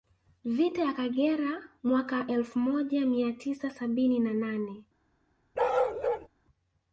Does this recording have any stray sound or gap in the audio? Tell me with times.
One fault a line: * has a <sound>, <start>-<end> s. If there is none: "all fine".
* has a bark, 5.5-6.3 s